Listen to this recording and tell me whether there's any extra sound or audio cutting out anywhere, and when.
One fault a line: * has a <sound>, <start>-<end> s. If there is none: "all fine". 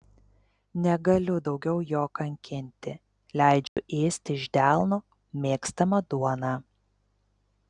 * has a dropout, 3.7-3.8 s